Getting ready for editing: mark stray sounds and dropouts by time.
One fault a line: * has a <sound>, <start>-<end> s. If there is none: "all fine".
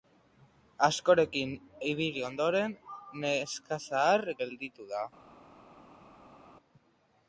all fine